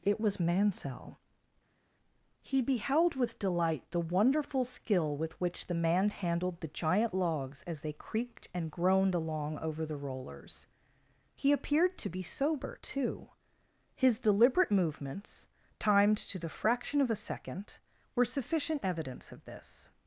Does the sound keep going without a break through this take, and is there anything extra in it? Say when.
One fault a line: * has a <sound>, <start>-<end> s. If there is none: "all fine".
all fine